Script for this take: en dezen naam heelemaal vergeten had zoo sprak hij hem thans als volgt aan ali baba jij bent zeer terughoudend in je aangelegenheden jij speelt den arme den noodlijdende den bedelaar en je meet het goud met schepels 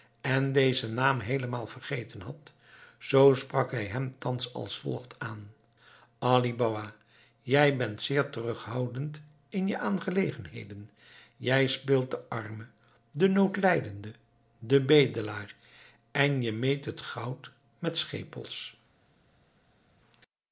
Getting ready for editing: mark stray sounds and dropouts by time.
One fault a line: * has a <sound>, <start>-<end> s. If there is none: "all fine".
all fine